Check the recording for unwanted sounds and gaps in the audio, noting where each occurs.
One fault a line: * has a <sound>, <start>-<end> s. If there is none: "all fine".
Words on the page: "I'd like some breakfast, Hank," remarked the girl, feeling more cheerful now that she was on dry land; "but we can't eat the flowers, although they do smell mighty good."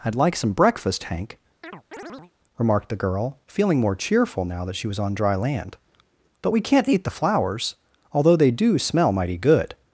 * has a chirp, 1.6-2.3 s